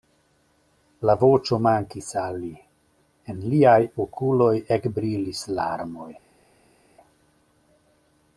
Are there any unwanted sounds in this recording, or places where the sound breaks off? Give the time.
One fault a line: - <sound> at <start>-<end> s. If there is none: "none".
none